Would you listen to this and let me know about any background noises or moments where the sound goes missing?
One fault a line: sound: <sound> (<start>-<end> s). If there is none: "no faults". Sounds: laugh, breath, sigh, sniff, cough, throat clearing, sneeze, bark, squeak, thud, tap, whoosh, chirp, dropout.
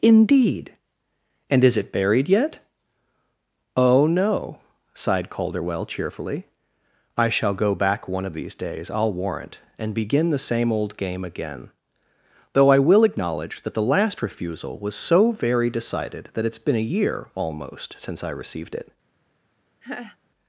sound: laugh (19.8-20.2 s)